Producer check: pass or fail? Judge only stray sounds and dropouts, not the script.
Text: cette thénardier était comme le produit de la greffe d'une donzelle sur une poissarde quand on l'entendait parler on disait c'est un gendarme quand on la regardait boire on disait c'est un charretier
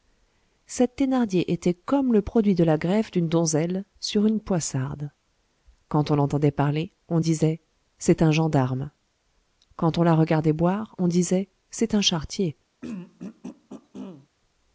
fail